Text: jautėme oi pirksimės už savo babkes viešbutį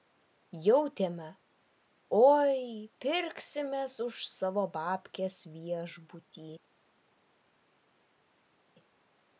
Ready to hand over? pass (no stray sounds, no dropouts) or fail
pass